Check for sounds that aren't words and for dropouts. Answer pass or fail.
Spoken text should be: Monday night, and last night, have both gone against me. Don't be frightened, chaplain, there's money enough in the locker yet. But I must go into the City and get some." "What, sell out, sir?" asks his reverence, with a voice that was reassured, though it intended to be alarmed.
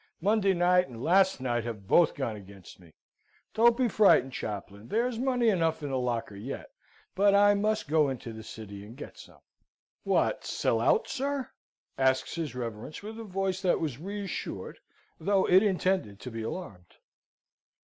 pass